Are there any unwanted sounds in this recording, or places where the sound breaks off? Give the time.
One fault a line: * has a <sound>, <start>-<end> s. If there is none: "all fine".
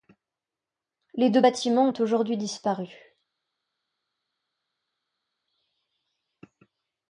all fine